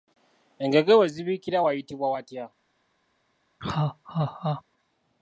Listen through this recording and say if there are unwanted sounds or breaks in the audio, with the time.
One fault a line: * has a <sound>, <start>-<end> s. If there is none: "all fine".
* has a laugh, 3.6-4.6 s